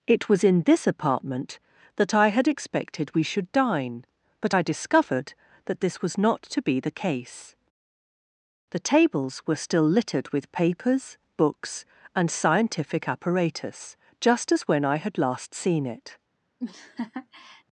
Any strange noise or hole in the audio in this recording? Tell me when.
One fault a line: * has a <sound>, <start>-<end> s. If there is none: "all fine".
* has a laugh, 16.6-17.6 s